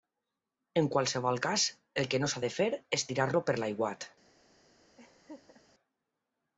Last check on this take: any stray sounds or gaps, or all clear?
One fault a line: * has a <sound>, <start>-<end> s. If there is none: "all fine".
* has a laugh, 5.0-5.6 s